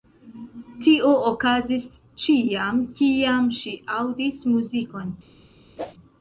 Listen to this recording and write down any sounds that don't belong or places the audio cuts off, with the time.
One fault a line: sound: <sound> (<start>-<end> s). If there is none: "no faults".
sound: whoosh (5.8-5.9 s)